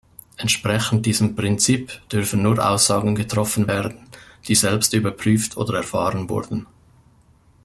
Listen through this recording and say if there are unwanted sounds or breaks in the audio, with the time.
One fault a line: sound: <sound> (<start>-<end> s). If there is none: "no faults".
no faults